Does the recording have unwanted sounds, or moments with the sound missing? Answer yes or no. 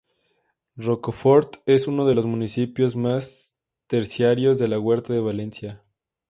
no